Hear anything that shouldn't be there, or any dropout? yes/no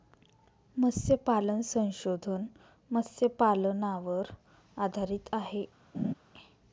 yes